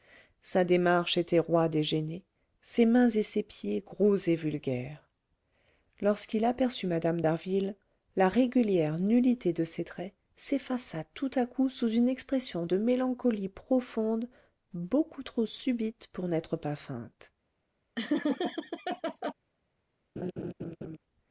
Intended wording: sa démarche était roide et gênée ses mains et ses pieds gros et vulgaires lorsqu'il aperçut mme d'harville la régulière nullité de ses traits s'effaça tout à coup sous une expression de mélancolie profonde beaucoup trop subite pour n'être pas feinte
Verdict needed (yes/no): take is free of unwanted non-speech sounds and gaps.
no